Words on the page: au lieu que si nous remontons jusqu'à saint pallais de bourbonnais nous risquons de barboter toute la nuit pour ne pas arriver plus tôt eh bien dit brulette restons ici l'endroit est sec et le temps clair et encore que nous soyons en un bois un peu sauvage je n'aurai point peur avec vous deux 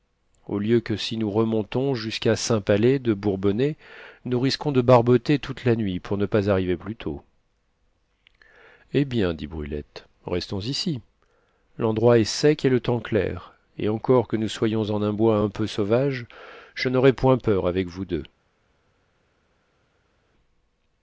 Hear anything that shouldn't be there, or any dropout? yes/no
no